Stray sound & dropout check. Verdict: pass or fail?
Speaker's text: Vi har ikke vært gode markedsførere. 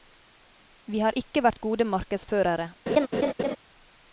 fail